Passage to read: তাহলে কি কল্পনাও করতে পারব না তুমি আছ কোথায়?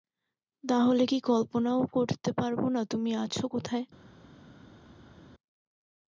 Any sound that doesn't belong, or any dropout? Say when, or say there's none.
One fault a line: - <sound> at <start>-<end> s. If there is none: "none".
none